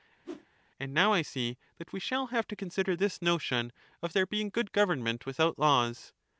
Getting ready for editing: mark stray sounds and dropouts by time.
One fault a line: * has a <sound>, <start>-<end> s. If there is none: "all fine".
* has a whoosh, 0.2-0.5 s